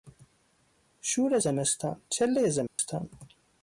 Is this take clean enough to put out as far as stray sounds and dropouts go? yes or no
no